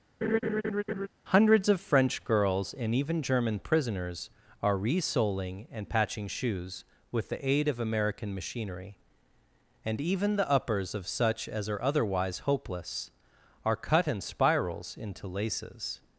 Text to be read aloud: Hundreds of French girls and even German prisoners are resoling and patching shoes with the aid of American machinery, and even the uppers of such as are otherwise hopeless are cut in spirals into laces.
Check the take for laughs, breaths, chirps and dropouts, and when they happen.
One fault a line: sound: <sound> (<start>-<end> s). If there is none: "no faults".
sound: laugh (0.2-1.1 s)